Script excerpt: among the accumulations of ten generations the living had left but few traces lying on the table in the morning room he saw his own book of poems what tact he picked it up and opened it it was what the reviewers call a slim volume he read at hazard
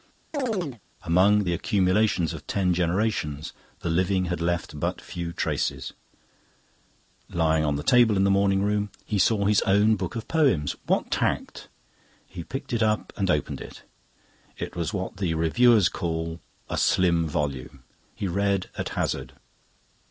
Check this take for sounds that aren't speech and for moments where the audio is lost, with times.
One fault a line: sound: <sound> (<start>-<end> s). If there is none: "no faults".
sound: chirp (0.3-0.8 s)